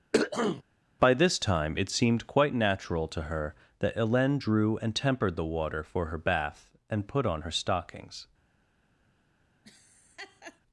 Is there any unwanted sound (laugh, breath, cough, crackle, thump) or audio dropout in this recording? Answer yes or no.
yes